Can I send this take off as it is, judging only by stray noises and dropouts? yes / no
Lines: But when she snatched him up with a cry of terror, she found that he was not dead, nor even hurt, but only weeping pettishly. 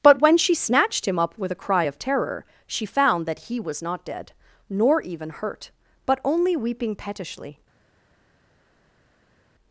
yes